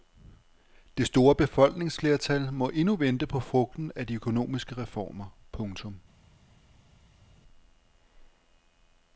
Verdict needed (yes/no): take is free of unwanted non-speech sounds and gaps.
yes